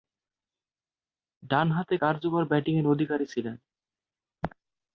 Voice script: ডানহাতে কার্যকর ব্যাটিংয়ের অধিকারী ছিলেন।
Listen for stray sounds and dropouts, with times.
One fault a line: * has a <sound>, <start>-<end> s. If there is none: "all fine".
all fine